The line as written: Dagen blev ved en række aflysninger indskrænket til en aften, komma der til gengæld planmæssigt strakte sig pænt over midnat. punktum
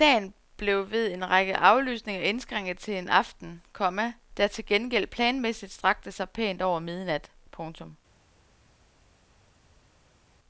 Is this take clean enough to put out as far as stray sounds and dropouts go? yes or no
yes